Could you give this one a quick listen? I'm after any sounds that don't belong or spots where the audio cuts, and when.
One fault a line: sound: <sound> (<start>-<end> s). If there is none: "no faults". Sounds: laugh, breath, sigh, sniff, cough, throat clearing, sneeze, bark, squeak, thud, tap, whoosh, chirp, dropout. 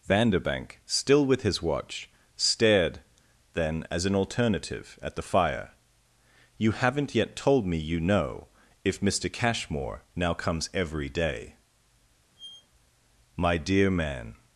sound: squeak (12.4-12.7 s)